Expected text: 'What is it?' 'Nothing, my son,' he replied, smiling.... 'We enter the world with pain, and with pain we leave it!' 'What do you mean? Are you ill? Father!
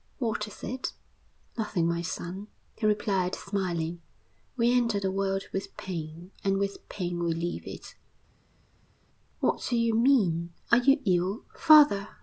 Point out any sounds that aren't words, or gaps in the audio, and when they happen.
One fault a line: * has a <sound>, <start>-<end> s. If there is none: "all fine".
all fine